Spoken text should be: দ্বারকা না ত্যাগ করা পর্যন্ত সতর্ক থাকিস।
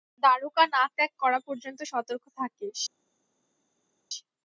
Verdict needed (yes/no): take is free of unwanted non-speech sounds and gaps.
yes